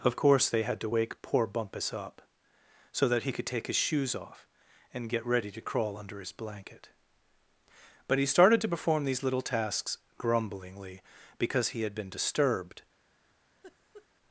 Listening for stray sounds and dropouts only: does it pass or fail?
fail